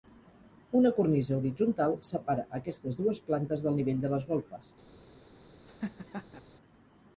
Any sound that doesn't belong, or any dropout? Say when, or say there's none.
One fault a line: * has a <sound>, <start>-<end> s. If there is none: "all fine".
* has a laugh, 5.7-6.4 s